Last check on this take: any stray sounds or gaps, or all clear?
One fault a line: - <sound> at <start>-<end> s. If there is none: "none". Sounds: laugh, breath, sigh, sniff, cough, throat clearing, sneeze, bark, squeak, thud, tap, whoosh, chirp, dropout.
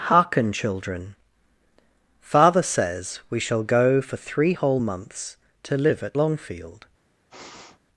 - sniff at 7.3-7.8 s